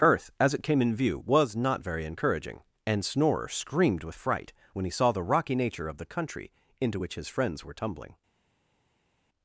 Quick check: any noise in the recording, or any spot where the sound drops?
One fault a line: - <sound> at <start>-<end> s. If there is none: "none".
none